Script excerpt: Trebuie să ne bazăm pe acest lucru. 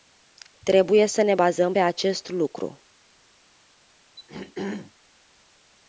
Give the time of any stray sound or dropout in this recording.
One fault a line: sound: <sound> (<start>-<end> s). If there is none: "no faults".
sound: throat clearing (4.2-4.9 s)